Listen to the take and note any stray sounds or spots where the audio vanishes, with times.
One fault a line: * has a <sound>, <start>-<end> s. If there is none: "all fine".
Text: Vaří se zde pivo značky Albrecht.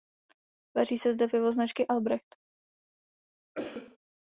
* has a cough, 3.5-4.0 s